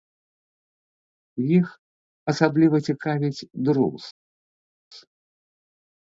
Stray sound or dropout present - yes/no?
no